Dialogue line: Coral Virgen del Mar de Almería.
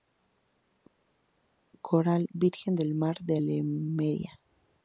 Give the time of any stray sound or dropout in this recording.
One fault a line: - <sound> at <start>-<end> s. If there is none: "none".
none